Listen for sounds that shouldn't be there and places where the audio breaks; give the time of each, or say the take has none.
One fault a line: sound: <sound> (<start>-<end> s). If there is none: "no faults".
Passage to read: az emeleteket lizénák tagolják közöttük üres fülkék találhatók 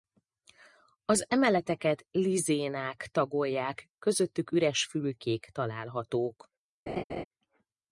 sound: laugh (6.9-7.2 s)